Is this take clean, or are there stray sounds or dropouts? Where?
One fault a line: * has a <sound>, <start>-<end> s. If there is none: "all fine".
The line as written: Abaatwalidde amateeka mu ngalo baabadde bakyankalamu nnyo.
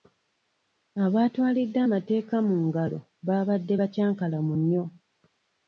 all fine